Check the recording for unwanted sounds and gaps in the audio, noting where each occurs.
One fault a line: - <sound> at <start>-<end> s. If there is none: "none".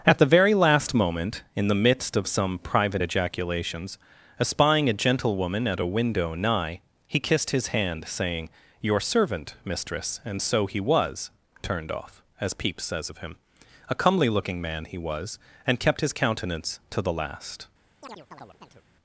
- chirp at 18.0-18.8 s